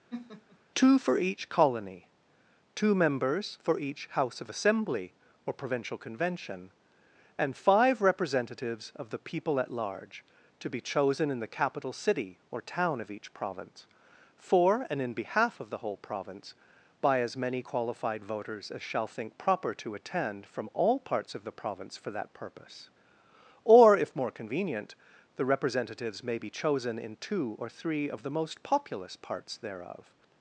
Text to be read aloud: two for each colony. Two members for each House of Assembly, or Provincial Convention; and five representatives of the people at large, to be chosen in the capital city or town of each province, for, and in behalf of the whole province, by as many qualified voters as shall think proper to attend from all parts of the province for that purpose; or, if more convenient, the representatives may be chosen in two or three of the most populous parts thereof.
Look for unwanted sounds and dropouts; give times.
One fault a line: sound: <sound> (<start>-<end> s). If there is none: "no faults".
sound: laugh (0.1-0.6 s)